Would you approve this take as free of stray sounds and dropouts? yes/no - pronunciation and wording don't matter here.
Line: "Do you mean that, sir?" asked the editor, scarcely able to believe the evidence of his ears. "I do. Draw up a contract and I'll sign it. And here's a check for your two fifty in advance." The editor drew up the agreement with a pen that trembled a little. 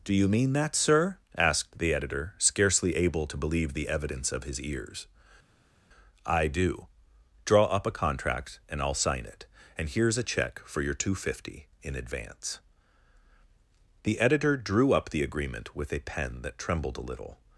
yes